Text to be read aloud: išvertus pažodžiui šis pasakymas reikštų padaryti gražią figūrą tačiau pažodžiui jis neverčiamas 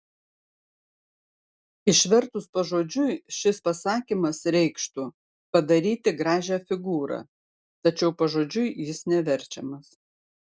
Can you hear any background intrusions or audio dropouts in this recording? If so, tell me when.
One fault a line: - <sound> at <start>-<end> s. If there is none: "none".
none